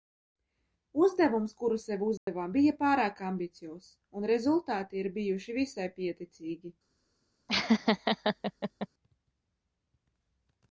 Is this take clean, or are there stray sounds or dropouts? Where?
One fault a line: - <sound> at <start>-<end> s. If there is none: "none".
- dropout at 2.2-2.3 s
- laugh at 7.5-8.9 s